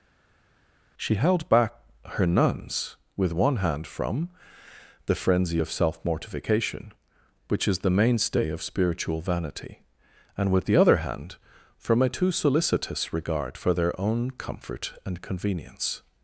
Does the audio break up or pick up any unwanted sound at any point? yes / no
no